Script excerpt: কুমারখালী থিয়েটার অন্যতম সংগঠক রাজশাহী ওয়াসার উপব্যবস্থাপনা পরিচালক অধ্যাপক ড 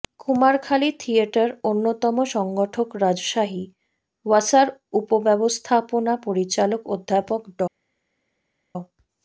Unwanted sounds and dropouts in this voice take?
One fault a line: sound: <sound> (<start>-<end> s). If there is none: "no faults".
no faults